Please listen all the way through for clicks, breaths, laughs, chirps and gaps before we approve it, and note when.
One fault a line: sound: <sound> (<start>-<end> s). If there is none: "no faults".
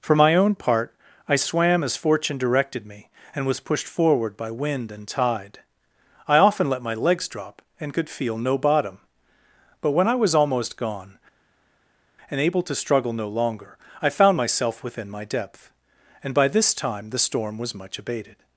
no faults